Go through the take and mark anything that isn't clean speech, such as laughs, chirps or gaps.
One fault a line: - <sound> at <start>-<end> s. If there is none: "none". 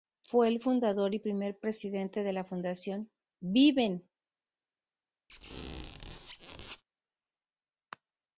- squeak at 5.3-6.8 s